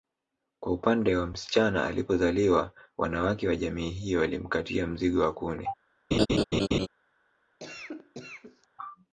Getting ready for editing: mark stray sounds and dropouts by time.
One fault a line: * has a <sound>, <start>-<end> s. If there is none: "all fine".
* has a laugh, 6.1-6.9 s
* has a cough, 7.6-8.7 s